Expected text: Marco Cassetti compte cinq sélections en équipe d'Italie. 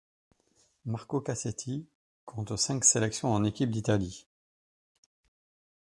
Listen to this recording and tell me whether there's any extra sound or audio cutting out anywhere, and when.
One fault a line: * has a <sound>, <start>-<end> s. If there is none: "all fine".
all fine